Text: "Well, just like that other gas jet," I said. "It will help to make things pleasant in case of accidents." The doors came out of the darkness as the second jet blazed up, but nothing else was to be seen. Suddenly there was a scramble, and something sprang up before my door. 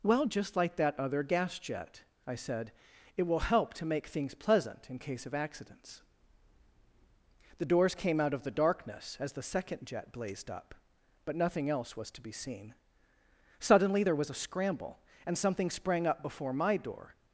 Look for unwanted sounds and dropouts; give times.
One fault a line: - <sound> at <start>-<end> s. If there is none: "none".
none